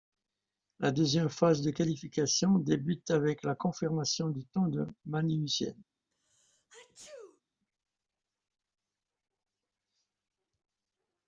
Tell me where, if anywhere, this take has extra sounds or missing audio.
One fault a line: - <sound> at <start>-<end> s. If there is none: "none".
- sneeze at 6.1-7.4 s